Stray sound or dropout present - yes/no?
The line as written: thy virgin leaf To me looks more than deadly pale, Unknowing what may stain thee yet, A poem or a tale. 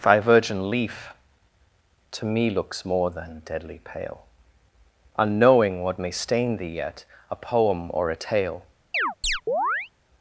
yes